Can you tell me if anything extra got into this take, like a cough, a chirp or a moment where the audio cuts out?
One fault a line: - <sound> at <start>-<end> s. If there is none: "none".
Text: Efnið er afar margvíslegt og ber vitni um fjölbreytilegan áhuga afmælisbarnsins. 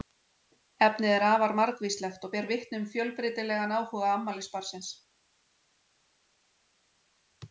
none